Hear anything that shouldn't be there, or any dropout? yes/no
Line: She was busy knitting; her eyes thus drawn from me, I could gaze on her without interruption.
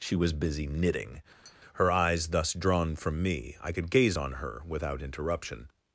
yes